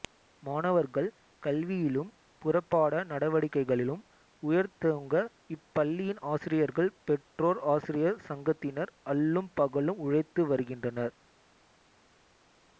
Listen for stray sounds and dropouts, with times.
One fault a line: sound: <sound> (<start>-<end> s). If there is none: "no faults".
no faults